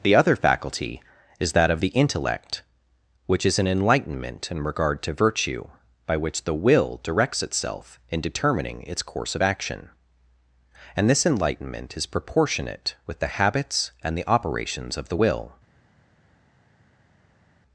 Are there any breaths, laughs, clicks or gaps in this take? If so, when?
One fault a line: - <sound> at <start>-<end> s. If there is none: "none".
none